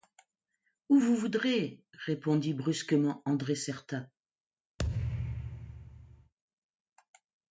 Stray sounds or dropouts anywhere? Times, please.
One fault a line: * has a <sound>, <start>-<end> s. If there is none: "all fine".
* has a thud, 4.8-6.3 s